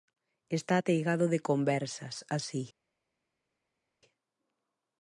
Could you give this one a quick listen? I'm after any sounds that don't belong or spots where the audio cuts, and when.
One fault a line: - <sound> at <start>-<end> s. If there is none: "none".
none